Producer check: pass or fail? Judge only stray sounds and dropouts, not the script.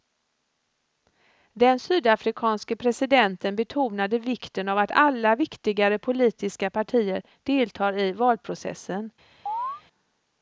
fail